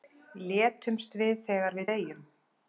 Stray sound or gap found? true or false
false